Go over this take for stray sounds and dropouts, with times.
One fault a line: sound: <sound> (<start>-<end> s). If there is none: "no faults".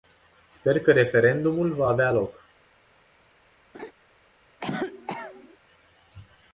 sound: laugh (3.7-3.9 s)
sound: cough (4.6-5.6 s)